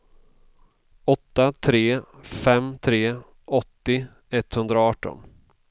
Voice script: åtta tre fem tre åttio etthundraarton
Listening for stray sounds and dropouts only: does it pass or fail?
pass